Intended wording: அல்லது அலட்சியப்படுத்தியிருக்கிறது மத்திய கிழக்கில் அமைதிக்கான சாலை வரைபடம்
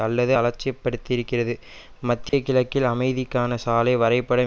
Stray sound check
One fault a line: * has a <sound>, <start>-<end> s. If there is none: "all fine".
* has a dropout, 2.3-2.3 s